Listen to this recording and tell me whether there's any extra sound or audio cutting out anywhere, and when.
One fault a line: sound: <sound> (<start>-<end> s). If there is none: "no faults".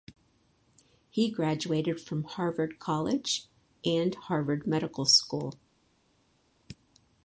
no faults